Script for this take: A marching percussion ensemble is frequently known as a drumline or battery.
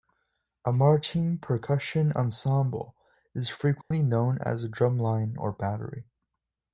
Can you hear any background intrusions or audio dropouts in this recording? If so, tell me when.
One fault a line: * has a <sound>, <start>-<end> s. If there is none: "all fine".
* has a dropout, 3.8-3.9 s